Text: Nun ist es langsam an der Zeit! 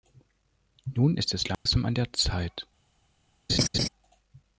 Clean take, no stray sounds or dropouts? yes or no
no